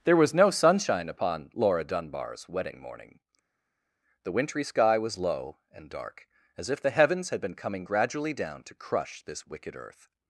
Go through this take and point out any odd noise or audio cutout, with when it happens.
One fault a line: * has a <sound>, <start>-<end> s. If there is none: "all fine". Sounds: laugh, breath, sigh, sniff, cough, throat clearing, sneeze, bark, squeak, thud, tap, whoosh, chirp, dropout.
all fine